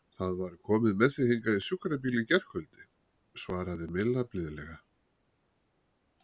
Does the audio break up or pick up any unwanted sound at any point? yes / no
no